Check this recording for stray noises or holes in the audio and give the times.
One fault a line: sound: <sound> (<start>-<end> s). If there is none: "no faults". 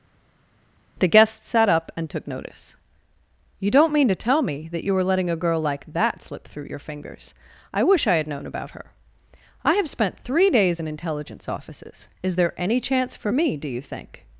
no faults